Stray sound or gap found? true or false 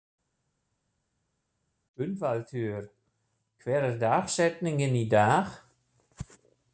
false